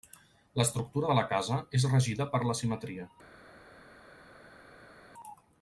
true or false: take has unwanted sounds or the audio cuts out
false